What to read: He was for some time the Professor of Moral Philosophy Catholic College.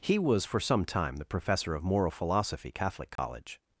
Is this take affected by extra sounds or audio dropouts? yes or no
yes